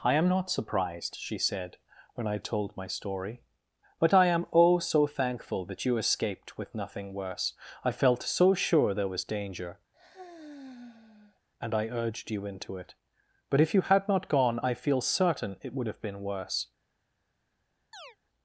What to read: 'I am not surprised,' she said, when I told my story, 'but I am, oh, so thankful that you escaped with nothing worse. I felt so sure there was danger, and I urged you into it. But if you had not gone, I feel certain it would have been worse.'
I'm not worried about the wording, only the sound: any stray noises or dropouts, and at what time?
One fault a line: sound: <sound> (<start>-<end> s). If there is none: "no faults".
sound: sigh (9.9-11.4 s)
sound: chirp (17.9-18.2 s)